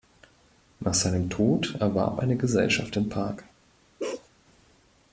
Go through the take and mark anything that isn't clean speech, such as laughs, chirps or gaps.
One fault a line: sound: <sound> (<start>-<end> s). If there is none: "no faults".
sound: bark (4.0-4.3 s)